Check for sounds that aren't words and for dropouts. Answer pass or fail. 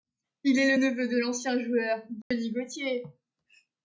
fail